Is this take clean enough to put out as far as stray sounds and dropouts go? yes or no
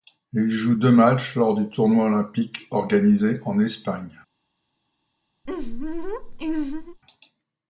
no